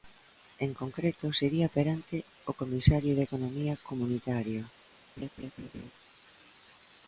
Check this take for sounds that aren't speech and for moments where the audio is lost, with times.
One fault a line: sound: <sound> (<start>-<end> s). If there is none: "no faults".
sound: laugh (5.2-5.9 s)